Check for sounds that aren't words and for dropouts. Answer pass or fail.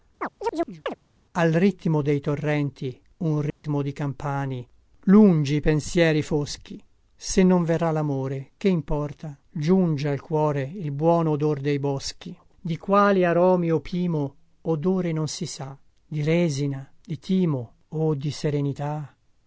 fail